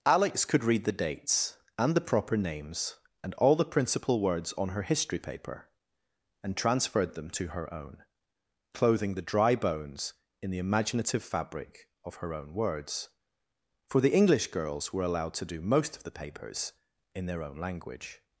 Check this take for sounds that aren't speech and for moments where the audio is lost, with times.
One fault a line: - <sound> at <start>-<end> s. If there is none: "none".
none